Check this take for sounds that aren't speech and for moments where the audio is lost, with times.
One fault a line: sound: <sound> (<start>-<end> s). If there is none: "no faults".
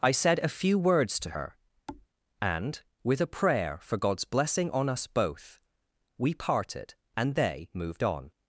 sound: thud (1.9-2.1 s)